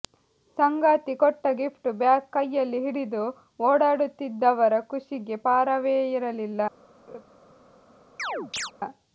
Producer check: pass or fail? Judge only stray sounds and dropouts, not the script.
fail